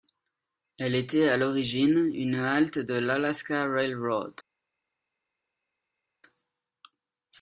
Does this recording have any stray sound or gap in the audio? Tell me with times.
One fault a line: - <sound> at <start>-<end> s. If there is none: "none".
none